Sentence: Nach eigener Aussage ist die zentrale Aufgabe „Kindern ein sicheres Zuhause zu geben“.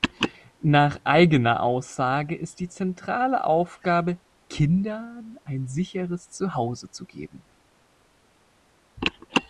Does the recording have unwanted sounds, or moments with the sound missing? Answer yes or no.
no